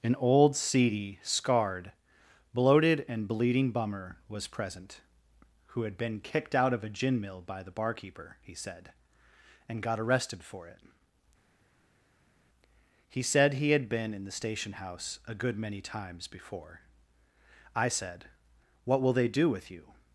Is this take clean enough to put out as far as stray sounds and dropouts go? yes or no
yes